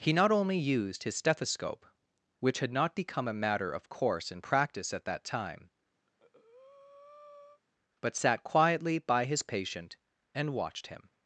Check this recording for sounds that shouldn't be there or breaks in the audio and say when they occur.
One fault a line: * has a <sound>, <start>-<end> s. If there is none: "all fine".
* has a breath, 6.1-7.6 s